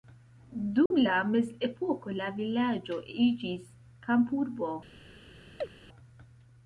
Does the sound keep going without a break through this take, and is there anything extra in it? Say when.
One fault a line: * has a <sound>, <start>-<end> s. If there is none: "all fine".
* has a dropout, 0.9-0.9 s
* has a chirp, 5.6-5.7 s